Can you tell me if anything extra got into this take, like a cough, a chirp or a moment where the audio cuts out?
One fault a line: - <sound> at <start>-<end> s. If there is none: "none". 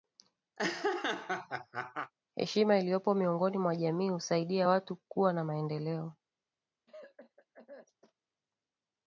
- laugh at 0.6-2.1 s
- cough at 6.9-8.1 s